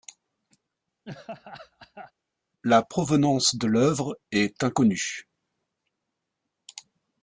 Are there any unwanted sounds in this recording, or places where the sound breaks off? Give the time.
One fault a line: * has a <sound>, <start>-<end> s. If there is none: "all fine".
* has a laugh, 1.0-2.1 s